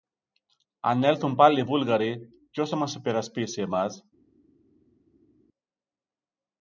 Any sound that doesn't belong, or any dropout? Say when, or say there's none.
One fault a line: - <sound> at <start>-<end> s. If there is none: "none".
none